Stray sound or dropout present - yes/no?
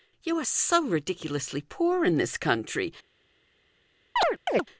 yes